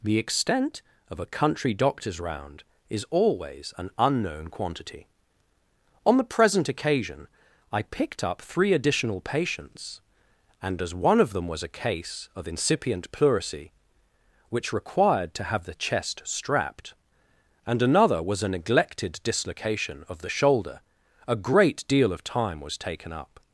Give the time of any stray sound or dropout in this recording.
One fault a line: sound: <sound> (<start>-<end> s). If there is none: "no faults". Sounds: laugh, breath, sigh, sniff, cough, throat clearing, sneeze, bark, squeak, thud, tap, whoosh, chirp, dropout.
no faults